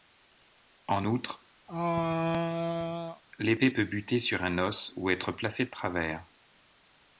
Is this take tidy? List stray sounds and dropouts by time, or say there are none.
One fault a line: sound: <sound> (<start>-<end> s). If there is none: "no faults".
sound: throat clearing (1.7-3.2 s)